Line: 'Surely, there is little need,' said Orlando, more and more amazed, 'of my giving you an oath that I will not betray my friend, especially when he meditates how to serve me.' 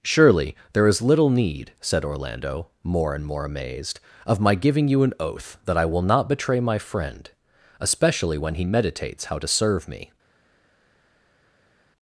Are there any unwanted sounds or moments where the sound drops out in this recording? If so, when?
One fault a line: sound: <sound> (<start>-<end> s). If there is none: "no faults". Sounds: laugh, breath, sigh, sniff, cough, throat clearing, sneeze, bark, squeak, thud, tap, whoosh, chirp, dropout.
no faults